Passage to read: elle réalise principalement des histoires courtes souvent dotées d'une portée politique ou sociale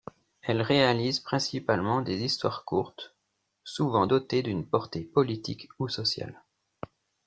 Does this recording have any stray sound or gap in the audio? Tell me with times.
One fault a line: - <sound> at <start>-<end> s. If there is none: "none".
none